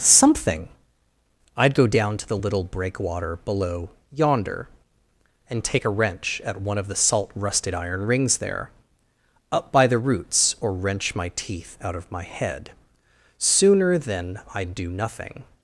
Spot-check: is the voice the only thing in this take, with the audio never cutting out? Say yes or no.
yes